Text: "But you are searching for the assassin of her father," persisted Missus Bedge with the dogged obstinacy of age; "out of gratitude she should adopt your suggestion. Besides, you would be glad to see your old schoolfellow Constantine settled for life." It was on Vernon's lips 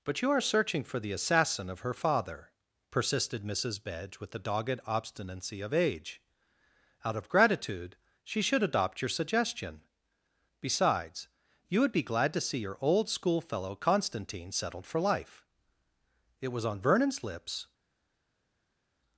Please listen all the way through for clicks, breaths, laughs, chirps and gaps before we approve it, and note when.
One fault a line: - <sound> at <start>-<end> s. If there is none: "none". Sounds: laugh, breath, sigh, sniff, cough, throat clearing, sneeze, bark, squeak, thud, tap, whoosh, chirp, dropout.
none